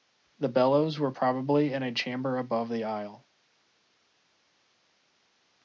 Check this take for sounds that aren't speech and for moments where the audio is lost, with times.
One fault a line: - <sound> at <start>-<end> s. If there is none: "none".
none